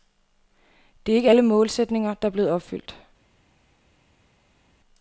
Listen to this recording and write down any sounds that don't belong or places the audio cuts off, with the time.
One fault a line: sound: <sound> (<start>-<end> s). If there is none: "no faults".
no faults